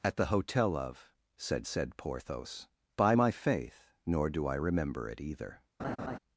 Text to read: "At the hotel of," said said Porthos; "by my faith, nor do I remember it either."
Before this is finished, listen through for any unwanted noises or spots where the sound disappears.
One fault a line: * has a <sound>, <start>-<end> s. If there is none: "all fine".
* has a laugh, 5.8-6.2 s